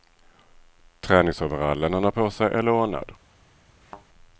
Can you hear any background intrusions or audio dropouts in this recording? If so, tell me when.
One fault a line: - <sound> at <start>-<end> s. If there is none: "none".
- thud at 3.8-4.1 s